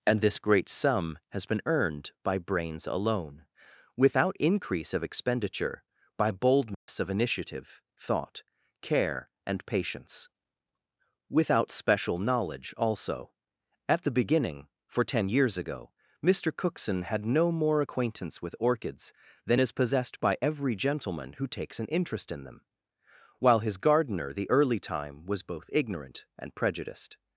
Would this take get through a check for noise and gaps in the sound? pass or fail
fail